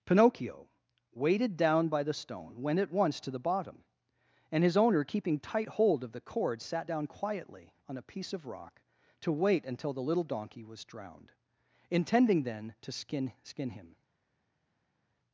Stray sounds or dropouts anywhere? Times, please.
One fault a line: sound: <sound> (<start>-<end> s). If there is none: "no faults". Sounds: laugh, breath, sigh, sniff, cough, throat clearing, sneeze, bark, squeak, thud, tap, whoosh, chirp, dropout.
no faults